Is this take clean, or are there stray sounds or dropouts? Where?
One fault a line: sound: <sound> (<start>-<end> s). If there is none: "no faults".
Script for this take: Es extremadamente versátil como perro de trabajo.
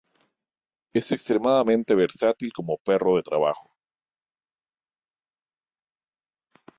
no faults